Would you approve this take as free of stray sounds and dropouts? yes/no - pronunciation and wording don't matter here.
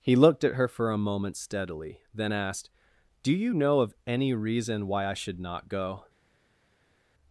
yes